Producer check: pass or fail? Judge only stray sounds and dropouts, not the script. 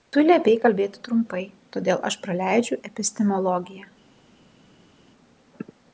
pass